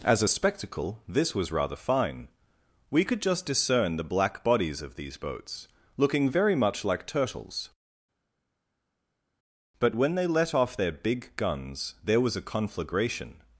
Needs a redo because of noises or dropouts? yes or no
no